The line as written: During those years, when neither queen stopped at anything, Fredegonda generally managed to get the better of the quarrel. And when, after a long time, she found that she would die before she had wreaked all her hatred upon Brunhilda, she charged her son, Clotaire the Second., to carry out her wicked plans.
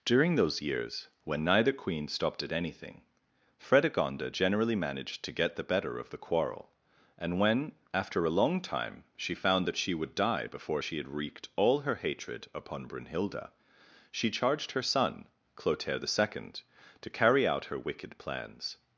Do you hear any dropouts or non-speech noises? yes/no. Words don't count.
no